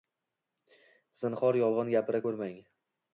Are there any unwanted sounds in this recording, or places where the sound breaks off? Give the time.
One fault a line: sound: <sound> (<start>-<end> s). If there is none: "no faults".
no faults